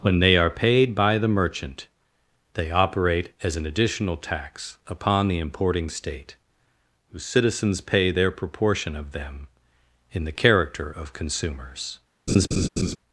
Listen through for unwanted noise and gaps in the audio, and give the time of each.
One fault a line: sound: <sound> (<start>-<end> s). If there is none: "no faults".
sound: laugh (12.3-13.0 s)